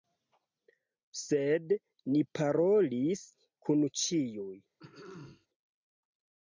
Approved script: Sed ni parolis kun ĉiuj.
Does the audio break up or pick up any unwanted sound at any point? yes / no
yes